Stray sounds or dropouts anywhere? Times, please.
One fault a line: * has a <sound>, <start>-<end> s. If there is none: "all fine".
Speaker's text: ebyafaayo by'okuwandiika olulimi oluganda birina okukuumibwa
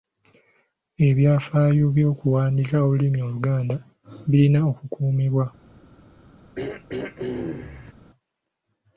* has a throat clearing, 6.5-7.9 s